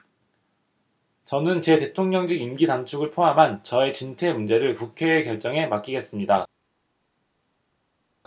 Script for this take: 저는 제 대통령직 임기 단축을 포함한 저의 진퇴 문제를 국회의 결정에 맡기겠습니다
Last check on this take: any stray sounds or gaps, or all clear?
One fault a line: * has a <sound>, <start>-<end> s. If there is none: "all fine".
all fine